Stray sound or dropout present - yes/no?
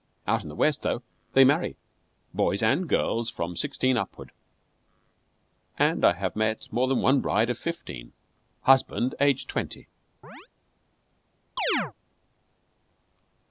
yes